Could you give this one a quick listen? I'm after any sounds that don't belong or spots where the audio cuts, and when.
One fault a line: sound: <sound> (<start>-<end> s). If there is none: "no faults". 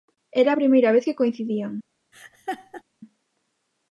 sound: laugh (2.1-2.8 s)